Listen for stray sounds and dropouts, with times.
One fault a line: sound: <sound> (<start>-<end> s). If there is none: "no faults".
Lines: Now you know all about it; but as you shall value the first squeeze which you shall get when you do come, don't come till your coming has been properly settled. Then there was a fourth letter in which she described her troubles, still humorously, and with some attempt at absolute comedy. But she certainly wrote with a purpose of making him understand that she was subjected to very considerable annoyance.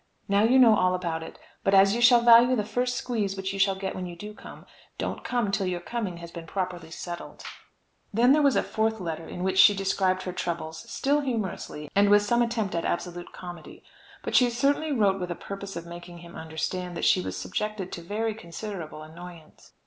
no faults